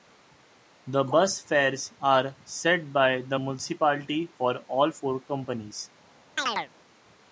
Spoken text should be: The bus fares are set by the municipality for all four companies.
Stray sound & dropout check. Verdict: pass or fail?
fail